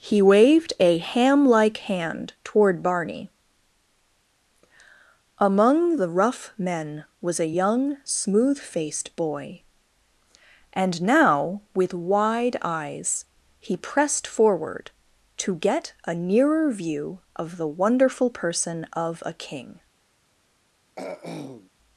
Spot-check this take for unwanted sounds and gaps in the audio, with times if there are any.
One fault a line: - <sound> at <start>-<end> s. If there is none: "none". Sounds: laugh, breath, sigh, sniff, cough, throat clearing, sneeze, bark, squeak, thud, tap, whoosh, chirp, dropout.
- throat clearing at 21.0-21.7 s